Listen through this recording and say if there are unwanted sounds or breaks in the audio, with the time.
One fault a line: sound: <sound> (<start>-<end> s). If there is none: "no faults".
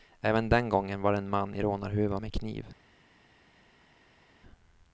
no faults